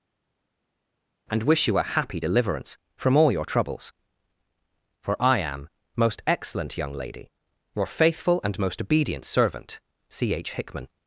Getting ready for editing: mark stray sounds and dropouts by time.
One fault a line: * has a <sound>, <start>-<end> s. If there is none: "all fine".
all fine